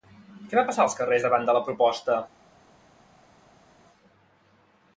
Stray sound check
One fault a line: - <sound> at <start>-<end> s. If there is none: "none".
none